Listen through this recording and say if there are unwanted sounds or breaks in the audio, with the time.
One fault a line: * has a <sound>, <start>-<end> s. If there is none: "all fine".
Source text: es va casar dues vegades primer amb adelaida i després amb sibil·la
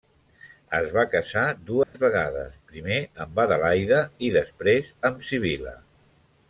* has a dropout, 1.8-1.9 s